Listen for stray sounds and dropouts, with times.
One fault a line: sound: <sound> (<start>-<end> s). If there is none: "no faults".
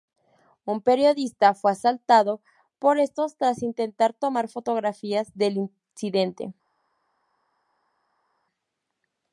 no faults